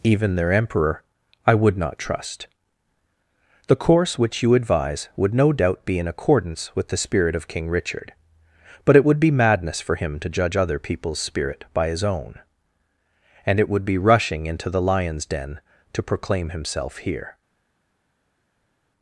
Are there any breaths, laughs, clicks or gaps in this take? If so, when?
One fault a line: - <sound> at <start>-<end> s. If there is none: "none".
none